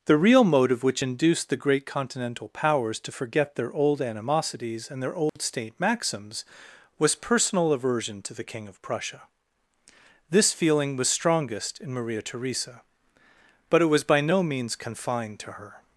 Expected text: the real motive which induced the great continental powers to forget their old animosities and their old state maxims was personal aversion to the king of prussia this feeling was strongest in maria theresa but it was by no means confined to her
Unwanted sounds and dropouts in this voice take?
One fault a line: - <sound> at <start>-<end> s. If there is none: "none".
- dropout at 5.3-5.4 s